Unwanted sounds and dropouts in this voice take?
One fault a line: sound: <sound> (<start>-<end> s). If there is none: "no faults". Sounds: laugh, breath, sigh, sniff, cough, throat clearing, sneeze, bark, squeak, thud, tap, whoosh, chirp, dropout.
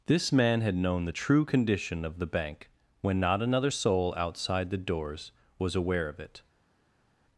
no faults